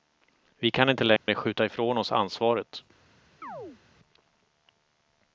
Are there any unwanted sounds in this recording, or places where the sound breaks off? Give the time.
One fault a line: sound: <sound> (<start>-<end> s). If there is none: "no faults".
sound: dropout (1.2-1.3 s)
sound: chirp (3.4-3.8 s)